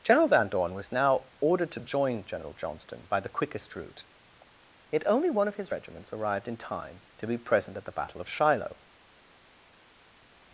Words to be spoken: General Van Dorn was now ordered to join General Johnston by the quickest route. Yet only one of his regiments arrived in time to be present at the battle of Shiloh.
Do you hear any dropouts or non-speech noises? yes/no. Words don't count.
no